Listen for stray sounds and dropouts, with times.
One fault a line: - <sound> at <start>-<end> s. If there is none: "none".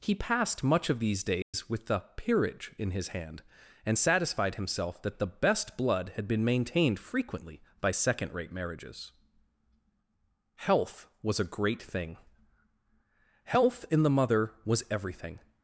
- dropout at 1.4-1.5 s